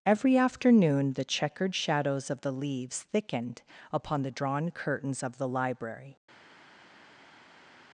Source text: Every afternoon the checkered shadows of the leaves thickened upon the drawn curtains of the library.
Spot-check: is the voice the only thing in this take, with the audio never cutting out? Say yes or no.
yes